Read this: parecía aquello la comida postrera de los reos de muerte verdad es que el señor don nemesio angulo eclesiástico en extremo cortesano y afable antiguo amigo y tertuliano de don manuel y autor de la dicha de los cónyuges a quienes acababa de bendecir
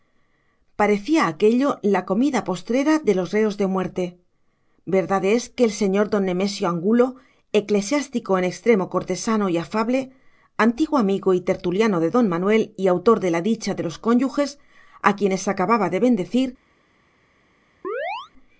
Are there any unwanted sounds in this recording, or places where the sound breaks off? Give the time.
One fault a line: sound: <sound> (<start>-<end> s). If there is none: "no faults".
sound: chirp (17.8-18.3 s)